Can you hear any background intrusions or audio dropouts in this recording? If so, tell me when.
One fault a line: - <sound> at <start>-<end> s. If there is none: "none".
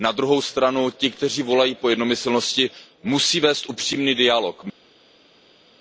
none